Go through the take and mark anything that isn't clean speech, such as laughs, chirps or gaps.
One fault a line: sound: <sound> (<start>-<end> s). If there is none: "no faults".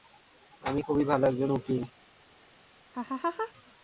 sound: laugh (2.9-3.5 s)